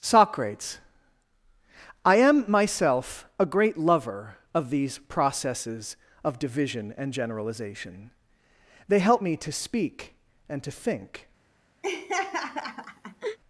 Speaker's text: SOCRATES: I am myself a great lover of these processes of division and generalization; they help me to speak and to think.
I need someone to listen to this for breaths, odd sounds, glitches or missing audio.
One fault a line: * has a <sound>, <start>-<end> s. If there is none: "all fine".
* has a laugh, 11.8-13.4 s